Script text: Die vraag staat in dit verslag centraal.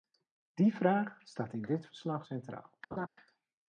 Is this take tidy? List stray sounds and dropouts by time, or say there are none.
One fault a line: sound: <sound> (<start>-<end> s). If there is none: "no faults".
sound: laugh (2.9-3.1 s)